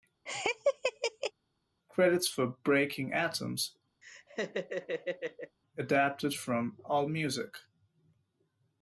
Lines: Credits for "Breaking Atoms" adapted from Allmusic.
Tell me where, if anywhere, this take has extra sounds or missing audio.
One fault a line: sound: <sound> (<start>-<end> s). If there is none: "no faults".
sound: laugh (0.3-1.3 s)
sound: laugh (4.0-5.6 s)